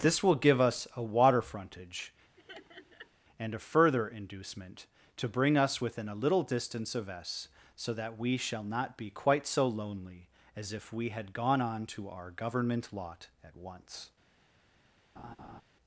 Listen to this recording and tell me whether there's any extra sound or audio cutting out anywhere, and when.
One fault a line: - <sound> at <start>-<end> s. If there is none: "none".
- laugh at 2.4-3.1 s
- laugh at 15.2-15.6 s